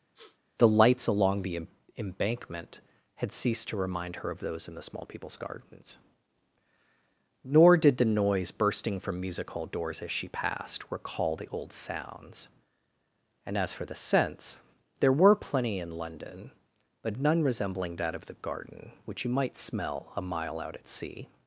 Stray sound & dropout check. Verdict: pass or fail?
fail